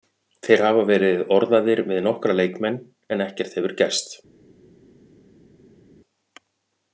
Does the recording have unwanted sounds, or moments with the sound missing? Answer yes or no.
no